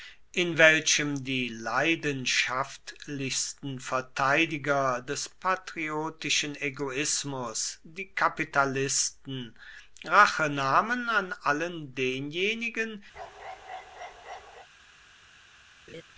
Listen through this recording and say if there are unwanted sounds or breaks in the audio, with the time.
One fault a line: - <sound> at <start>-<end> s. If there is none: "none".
- bark at 13.1-14.7 s
- laugh at 15.9-16.0 s